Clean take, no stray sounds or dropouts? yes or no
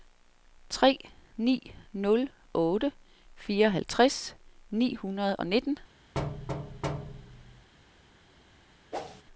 no